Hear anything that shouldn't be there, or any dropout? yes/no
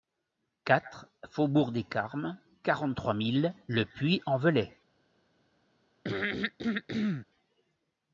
yes